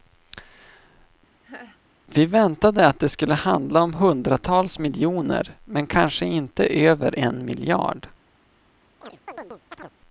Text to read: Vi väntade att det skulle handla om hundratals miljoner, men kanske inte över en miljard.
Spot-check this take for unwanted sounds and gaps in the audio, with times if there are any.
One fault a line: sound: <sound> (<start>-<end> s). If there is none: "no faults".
sound: laugh (1.4-1.8 s)
sound: chirp (9.0-9.9 s)